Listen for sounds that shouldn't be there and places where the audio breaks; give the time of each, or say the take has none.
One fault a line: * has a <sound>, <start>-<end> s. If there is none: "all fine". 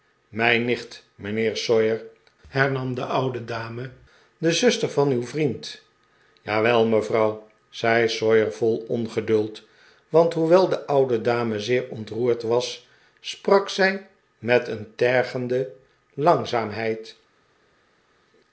all fine